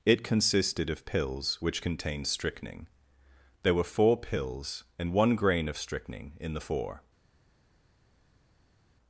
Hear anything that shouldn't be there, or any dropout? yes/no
no